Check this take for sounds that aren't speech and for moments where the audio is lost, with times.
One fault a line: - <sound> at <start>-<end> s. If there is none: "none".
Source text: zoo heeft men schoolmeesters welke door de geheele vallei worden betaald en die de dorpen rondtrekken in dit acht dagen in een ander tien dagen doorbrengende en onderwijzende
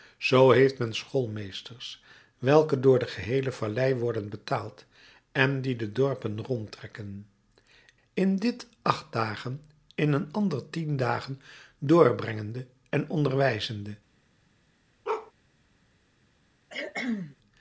- bark at 15.0-15.3 s
- cough at 16.7-17.4 s